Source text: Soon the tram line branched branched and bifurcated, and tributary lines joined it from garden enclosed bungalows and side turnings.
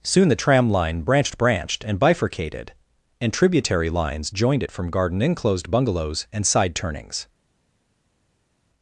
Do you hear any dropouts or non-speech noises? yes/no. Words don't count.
no